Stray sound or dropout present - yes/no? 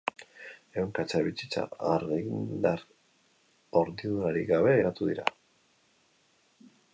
no